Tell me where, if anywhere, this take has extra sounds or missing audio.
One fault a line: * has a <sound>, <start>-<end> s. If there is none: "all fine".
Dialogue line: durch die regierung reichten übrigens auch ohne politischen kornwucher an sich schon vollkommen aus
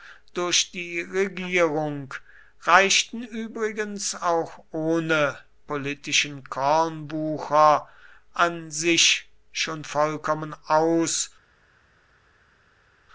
all fine